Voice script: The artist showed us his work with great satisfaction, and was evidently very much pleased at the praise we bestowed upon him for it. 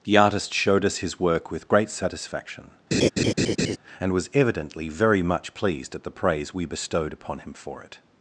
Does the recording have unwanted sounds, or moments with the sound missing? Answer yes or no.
yes